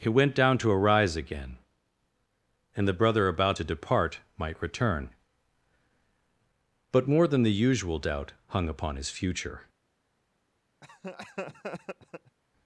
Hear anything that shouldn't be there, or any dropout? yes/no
yes